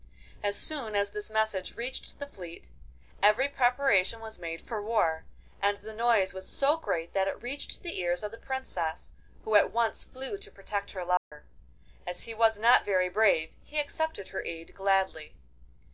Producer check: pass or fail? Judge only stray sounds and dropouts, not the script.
fail